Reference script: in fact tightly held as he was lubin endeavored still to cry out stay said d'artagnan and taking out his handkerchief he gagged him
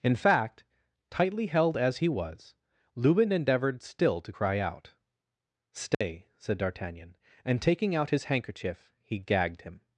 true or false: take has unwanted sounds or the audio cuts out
true